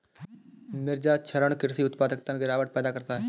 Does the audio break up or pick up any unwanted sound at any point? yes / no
no